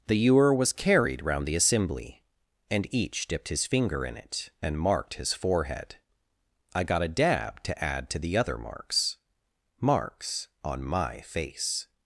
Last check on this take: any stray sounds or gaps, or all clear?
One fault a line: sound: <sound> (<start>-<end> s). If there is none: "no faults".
no faults